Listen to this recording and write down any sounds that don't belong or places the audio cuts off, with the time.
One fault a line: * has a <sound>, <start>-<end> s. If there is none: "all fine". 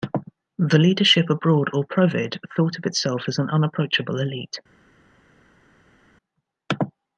all fine